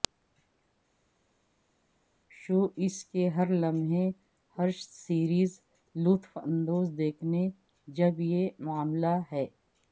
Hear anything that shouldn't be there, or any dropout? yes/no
no